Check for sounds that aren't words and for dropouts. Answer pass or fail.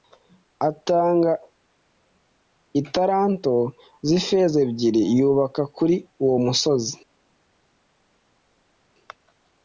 pass